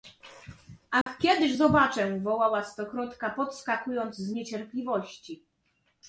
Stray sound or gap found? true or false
true